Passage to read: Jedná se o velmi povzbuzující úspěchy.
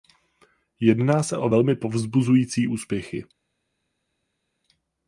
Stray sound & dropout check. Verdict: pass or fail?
pass